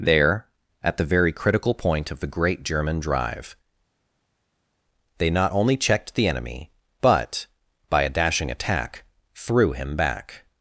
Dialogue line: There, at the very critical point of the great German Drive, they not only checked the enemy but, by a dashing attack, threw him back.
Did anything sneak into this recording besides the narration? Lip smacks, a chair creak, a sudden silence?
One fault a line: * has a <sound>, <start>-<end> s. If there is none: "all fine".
all fine